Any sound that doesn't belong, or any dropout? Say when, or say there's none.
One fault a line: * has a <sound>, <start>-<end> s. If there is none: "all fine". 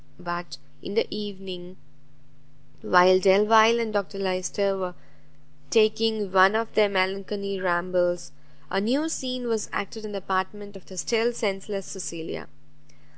all fine